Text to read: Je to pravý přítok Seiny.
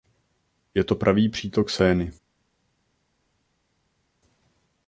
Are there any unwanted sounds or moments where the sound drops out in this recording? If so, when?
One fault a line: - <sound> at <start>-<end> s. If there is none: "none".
none